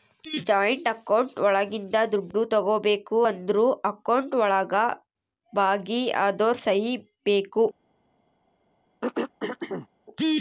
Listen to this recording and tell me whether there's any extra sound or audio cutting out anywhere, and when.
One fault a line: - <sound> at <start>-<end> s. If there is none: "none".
- throat clearing at 9.0-9.9 s